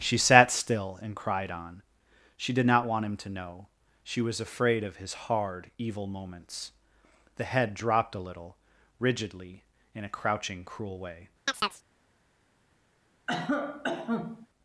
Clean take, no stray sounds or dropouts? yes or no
no